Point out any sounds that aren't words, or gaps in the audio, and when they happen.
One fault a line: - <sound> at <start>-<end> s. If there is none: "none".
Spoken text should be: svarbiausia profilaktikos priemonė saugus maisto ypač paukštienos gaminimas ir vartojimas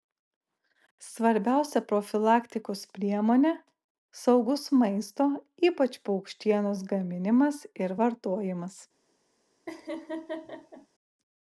- laugh at 9.7-10.9 s